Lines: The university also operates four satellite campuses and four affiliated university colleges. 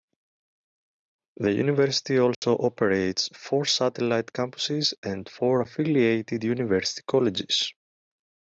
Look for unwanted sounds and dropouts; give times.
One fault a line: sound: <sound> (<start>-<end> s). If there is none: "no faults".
sound: dropout (2.3-2.4 s)